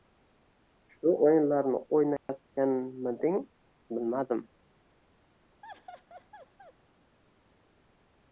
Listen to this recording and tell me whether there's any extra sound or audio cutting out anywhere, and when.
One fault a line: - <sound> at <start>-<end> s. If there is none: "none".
- dropout at 2.2-2.3 s
- laugh at 5.6-6.7 s